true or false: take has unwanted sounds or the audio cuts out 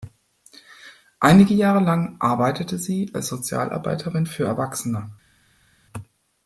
false